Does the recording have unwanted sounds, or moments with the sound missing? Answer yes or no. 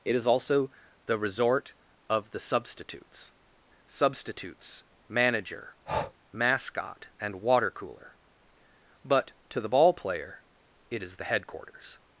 yes